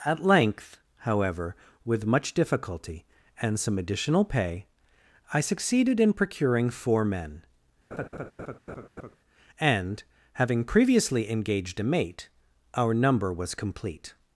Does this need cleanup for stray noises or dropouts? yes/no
yes